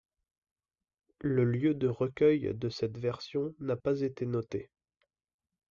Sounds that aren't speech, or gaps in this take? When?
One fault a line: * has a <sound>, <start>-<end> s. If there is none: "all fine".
all fine